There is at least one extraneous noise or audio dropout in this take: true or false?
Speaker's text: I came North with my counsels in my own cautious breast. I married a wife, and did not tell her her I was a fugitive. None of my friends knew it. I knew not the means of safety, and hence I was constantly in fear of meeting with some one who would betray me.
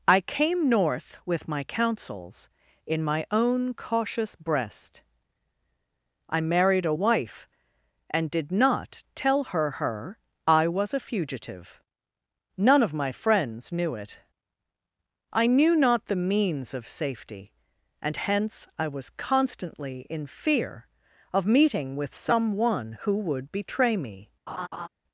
true